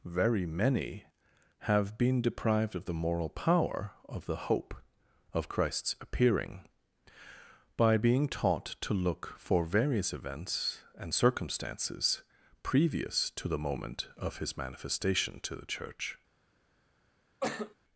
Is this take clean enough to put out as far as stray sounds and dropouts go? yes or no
no